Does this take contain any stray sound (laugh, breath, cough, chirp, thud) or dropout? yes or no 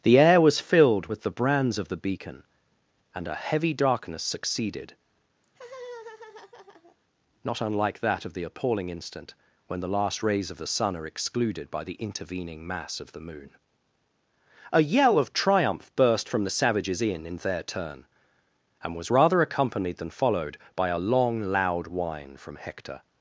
yes